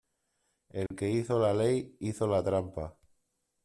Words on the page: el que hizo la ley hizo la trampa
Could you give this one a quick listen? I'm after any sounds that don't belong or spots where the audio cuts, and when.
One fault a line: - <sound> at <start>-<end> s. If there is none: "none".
- dropout at 0.9-0.9 s